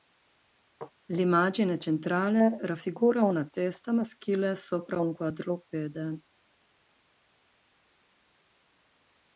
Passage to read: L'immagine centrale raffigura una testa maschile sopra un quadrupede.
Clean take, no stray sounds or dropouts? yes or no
yes